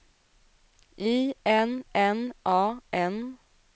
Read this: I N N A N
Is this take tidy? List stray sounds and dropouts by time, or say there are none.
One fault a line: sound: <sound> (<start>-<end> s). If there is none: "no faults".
no faults